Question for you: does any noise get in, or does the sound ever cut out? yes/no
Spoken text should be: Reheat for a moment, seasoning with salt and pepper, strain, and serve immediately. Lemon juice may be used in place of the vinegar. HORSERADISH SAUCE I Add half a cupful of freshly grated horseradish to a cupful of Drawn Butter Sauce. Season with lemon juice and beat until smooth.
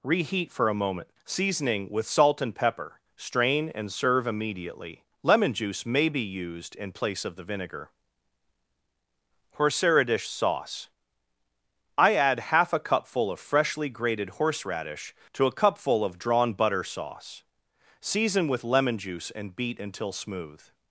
no